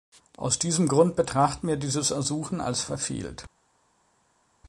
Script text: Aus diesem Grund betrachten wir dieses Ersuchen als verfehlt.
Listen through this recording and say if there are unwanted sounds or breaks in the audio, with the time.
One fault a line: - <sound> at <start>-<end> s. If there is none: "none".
none